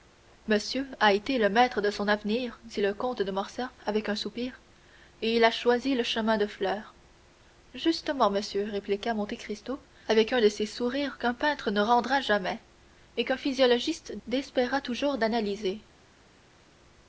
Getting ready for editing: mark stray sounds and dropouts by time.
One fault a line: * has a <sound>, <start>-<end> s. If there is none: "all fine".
all fine